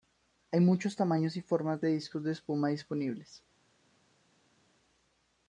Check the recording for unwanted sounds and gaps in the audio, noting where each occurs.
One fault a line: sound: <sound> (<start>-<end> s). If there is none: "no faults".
no faults